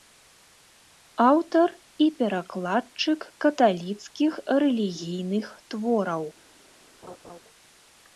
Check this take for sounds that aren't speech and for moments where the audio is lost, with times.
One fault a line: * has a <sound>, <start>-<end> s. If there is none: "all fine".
* has a laugh, 7.0-7.4 s